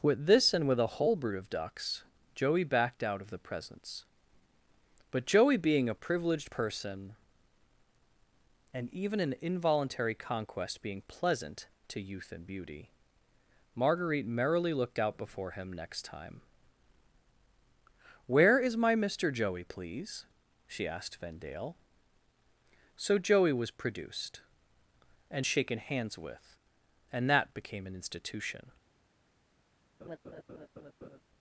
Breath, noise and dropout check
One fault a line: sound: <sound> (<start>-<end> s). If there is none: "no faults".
sound: laugh (30.0-31.2 s)